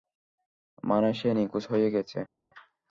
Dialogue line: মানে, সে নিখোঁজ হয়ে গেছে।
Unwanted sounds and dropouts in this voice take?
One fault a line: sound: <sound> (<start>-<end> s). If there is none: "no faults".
no faults